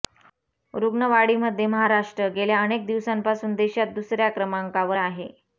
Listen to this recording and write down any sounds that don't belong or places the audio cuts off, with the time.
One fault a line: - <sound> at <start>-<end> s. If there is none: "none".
none